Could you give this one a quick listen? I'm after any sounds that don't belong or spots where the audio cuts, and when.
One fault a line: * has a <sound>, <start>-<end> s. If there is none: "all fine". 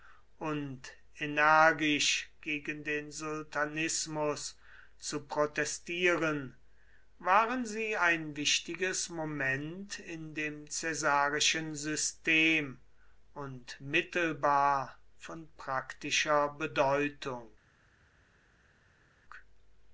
all fine